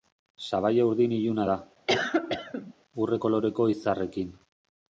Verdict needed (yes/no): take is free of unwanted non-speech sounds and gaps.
no